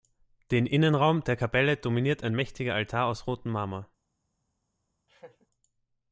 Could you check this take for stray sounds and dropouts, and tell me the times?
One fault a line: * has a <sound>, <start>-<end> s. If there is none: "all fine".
* has a laugh, 5.1-5.5 s